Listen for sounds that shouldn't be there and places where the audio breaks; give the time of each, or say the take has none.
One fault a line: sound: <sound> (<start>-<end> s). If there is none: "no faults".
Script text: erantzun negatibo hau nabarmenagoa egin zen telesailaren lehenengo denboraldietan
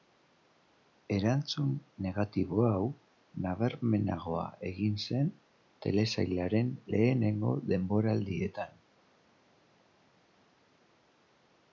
no faults